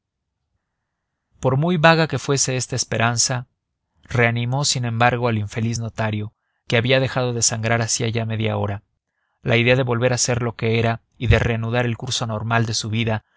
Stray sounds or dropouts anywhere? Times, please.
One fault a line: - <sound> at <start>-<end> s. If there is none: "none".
none